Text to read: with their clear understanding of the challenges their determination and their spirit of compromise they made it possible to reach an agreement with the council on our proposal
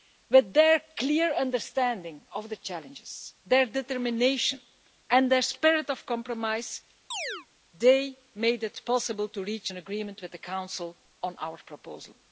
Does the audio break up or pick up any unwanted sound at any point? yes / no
yes